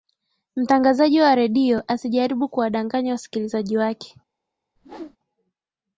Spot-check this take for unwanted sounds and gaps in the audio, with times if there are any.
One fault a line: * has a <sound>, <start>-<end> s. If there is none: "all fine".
* has a whoosh, 4.8-5.2 s